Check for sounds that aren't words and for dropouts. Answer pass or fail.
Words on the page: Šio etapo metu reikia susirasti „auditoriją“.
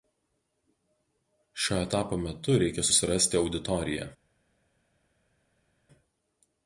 pass